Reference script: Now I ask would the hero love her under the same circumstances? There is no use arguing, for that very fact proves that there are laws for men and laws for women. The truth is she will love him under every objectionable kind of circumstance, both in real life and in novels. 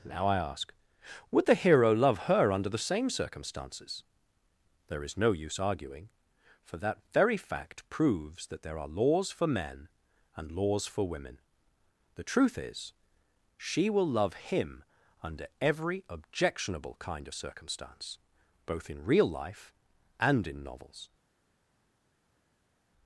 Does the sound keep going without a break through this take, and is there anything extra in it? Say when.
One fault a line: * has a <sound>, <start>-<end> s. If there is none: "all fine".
all fine